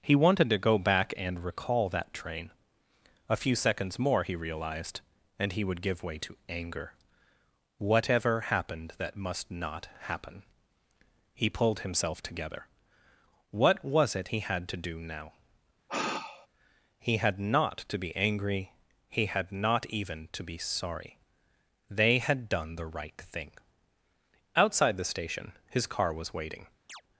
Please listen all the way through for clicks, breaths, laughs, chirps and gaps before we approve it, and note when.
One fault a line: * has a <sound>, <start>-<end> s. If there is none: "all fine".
* has a sigh, 15.9-16.5 s
* has a chirp, 26.9-27.0 s